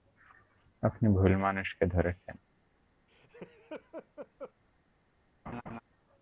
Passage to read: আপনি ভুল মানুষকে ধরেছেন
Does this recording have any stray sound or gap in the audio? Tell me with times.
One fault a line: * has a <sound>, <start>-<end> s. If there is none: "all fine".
* has a laugh, 3.1-4.5 s
* has a laugh, 5.5-5.8 s